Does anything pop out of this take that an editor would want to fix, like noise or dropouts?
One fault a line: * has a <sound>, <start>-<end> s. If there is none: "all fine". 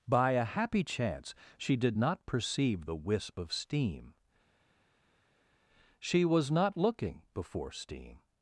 all fine